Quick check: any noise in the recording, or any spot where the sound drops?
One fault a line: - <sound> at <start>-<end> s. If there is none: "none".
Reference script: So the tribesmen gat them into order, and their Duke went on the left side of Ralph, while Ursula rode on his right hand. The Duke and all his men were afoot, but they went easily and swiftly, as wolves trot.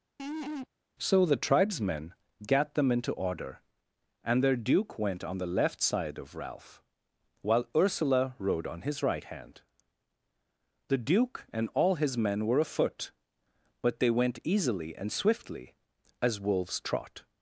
- laugh at 0.2-0.7 s